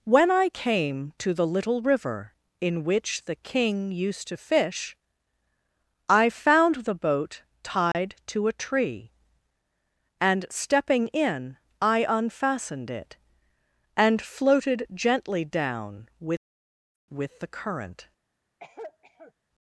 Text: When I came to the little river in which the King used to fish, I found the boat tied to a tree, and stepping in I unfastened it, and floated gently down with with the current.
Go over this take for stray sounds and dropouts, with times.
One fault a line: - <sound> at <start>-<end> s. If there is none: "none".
- dropout at 7.9-7.9 s
- cough at 18.6-19.3 s